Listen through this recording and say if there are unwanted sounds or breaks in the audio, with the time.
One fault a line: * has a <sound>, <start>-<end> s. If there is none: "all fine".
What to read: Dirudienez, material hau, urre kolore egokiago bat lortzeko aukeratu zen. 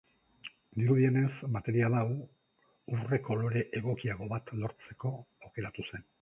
all fine